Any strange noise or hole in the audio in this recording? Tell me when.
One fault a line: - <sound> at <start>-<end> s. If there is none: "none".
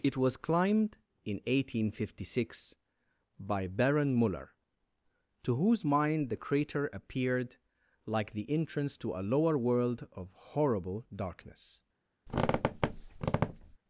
- squeak at 12.3-13.8 s